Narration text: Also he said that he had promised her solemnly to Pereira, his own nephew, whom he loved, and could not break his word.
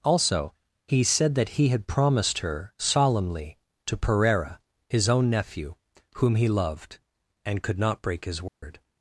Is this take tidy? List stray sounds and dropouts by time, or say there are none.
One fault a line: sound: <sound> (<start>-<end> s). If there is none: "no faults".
sound: dropout (8.5-8.6 s)